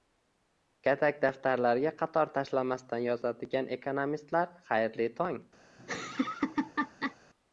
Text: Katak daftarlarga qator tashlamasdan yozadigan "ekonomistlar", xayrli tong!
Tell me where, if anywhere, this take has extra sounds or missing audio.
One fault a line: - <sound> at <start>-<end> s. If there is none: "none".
- laugh at 5.8-7.2 s